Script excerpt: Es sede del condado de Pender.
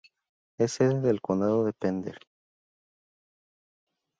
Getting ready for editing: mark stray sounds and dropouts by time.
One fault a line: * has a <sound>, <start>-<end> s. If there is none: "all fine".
all fine